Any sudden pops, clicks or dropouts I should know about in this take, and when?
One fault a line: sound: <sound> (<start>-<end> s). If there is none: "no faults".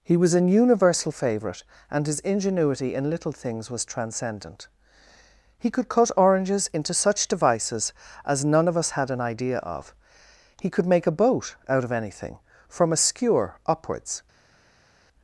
no faults